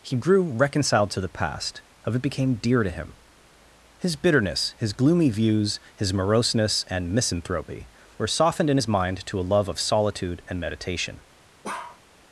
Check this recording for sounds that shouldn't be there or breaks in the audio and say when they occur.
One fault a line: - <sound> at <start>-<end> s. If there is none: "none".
- bark at 11.6-12.0 s